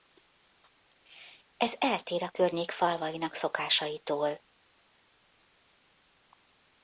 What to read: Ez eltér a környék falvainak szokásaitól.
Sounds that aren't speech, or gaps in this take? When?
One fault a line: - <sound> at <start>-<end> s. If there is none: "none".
none